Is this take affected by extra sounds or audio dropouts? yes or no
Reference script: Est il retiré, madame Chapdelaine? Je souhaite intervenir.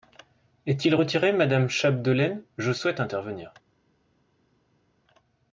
no